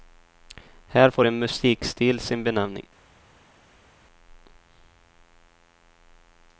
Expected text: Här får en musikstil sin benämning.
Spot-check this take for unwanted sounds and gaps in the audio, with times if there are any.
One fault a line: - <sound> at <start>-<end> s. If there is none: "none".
none